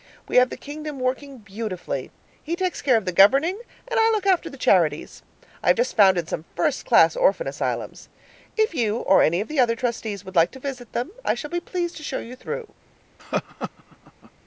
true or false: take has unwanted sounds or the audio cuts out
true